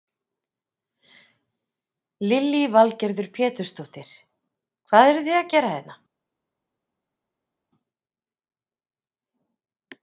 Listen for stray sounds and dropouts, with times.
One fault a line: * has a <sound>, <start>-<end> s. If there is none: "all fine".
all fine